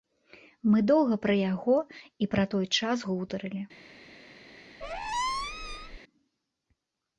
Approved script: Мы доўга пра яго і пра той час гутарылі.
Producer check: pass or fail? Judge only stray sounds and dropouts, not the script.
fail